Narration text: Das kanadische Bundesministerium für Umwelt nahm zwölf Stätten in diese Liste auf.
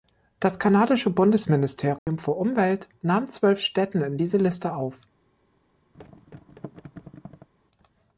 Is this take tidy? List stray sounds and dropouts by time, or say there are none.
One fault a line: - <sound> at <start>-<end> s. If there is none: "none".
- dropout at 2.0-2.1 s
- thud at 5.9-7.5 s